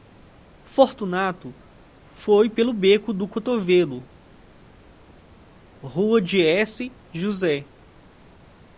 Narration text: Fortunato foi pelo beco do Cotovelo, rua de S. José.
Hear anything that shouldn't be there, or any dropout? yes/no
no